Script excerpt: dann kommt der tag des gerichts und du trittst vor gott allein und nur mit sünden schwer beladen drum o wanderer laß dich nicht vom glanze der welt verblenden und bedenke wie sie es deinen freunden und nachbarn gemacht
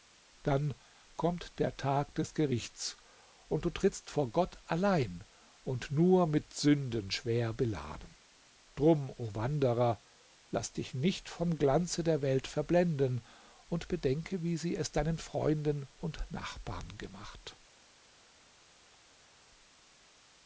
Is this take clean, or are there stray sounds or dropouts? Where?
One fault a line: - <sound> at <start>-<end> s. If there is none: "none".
none